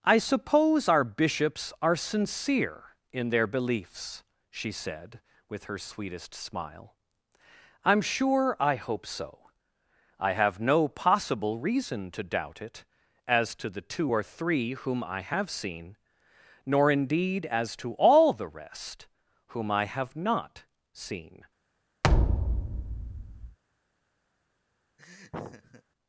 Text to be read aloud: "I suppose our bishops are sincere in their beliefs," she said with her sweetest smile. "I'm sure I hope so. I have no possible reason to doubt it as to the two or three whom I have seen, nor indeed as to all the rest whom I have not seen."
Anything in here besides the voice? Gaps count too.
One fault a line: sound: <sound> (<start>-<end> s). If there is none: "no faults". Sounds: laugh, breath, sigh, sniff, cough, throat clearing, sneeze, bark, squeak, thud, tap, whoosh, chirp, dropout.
sound: thud (22.0-23.6 s)
sound: laugh (25.0-25.8 s)